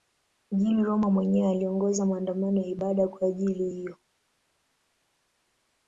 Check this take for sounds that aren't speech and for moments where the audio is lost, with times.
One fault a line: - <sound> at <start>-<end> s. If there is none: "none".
none